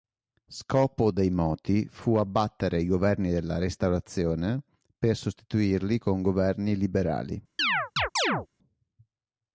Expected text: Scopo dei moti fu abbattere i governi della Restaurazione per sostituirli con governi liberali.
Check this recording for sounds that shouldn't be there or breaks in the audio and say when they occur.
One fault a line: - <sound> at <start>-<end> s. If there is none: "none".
- chirp at 7.6-8.5 s